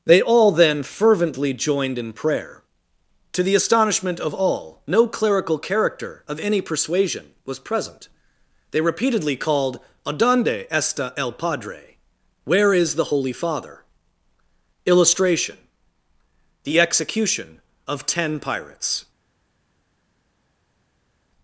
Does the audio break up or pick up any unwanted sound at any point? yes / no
no